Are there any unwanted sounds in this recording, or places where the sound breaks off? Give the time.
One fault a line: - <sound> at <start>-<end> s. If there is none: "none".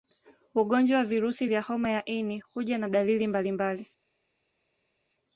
none